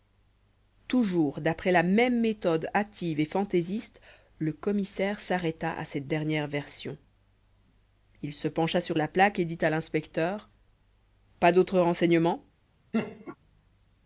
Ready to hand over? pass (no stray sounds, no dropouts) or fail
fail